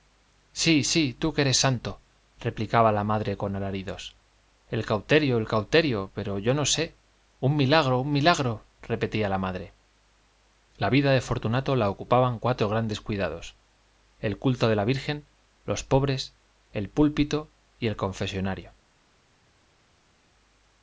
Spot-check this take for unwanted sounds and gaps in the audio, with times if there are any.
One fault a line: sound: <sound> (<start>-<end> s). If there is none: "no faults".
no faults